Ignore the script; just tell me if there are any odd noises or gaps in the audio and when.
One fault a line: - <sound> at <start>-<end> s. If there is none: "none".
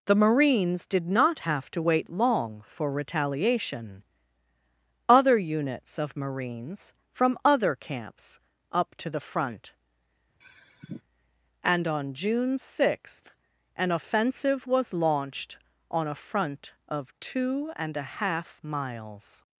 - sigh at 10.4-11.0 s